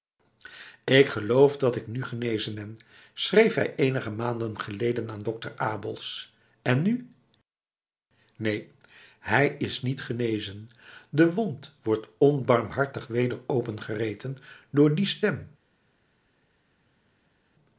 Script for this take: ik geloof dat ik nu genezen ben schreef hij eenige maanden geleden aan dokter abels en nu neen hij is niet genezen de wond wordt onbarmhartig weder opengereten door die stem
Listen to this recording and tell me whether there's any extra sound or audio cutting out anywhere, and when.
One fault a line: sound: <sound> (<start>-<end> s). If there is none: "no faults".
no faults